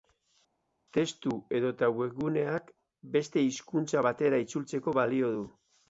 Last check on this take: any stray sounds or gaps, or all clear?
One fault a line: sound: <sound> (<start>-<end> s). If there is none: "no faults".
no faults